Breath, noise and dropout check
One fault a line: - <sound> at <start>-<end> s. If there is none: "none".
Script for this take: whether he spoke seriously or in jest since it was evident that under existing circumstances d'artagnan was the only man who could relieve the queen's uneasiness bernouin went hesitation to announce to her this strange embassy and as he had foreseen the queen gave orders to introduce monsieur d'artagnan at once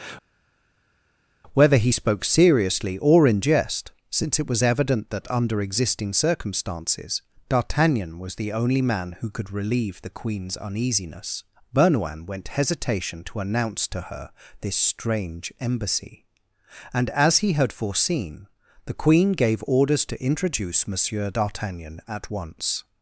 none